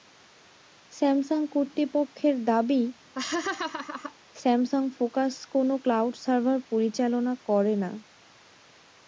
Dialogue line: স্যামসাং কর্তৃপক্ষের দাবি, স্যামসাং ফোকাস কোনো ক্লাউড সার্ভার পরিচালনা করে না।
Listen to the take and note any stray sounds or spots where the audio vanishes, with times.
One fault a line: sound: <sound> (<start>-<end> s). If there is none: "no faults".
sound: laugh (3.2-4.1 s)